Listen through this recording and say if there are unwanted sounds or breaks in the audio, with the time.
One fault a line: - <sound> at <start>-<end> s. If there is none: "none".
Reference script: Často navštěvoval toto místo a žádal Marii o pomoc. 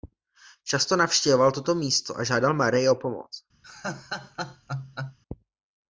- laugh at 3.6-5.2 s